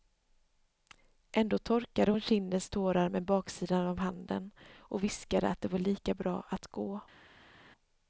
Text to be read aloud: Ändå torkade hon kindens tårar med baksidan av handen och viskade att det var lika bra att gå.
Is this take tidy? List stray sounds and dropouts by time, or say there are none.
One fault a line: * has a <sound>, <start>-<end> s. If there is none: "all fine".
all fine